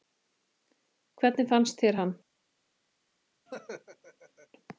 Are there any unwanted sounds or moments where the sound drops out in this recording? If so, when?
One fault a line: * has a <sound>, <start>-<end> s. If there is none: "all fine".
* has a laugh, 3.5-4.5 s